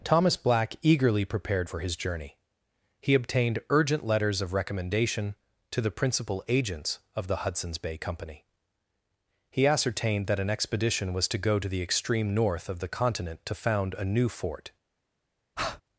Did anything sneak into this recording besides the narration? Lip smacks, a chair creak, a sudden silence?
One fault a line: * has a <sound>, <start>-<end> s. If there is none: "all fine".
* has a breath, 15.6-15.8 s